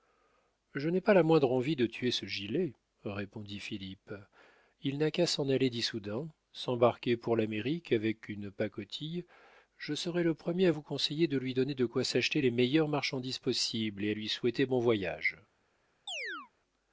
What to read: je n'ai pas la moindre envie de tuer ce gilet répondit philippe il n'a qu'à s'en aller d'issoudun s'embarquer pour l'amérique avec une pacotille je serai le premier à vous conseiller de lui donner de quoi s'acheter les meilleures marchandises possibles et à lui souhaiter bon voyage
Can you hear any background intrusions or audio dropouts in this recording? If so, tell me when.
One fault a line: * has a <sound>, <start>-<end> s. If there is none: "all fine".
* has a chirp, 16.1-16.5 s